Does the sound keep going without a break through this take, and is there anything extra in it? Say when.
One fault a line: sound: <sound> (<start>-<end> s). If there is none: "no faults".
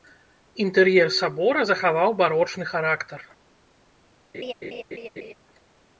sound: laugh (4.3-5.3 s)